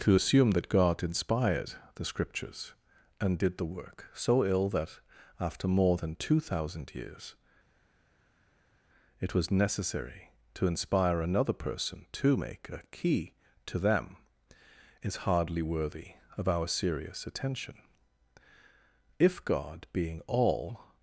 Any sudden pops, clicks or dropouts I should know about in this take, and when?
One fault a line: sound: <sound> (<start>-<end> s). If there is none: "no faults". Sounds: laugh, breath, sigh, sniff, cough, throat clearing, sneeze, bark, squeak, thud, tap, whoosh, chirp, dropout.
no faults